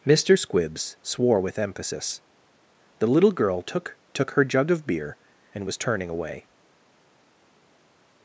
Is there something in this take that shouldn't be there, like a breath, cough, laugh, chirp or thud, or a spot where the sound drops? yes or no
no